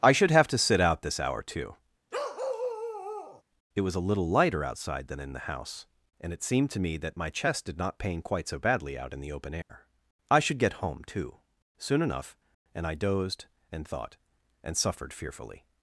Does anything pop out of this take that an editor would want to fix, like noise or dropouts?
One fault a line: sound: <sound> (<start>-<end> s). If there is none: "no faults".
sound: bark (2.1-3.4 s)
sound: dropout (9.6-9.7 s)